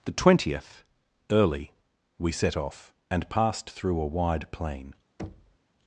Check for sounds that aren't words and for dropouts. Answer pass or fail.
fail